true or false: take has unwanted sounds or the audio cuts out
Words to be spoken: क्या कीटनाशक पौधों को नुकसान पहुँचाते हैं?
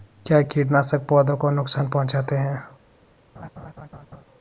true